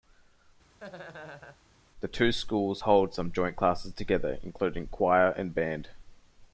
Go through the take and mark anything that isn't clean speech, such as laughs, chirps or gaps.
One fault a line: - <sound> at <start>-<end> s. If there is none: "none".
- laugh at 0.8-1.6 s